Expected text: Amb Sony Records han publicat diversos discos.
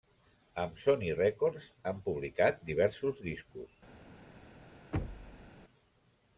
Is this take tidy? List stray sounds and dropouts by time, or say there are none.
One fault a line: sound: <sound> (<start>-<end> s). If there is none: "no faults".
sound: thud (4.9-5.5 s)